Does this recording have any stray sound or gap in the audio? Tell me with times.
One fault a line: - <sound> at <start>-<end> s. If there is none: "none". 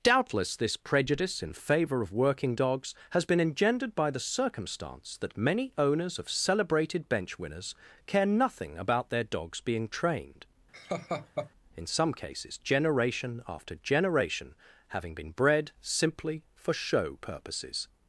- laugh at 10.7-11.5 s